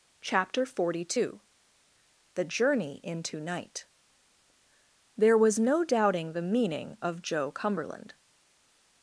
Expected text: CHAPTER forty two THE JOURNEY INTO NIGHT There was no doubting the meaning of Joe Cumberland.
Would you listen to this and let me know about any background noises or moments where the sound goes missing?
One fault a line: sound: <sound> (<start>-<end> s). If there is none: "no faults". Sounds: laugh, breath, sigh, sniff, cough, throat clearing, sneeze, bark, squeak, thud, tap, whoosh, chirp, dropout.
no faults